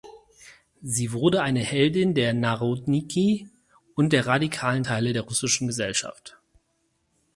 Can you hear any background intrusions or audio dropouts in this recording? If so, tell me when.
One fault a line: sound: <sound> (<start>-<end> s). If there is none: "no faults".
no faults